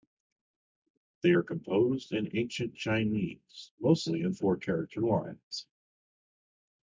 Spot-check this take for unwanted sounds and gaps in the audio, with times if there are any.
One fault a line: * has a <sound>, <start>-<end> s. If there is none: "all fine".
all fine